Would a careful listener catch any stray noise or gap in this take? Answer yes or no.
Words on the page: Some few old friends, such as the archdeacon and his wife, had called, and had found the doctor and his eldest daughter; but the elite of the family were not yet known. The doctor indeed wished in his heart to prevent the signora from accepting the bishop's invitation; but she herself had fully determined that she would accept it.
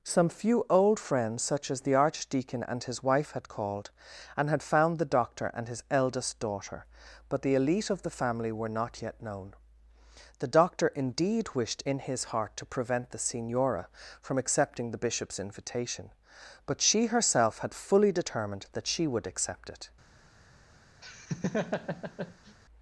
yes